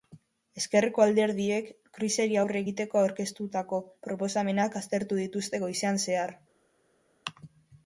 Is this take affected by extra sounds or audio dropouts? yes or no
no